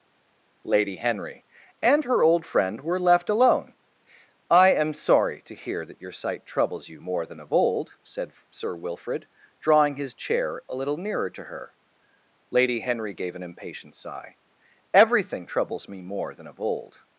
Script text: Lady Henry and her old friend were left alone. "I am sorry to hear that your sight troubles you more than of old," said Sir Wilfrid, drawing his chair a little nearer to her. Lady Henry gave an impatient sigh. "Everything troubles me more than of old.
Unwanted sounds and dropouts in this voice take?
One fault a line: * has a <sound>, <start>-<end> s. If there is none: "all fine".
all fine